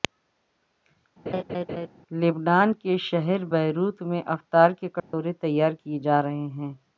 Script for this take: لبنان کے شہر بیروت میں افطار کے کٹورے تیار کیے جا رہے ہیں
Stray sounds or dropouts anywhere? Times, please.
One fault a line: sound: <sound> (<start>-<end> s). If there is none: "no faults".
sound: laugh (1.3-1.9 s)
sound: dropout (5.0-5.1 s)